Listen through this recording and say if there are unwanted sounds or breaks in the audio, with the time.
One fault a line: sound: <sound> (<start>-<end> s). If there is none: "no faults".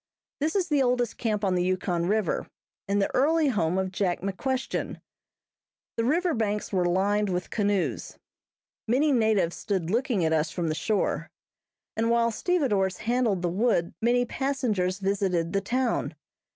no faults